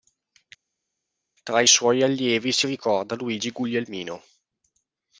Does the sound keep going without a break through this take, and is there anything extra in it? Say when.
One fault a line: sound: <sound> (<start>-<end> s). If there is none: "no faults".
no faults